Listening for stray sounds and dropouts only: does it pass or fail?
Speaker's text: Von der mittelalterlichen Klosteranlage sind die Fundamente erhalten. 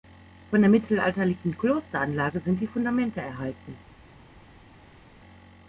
pass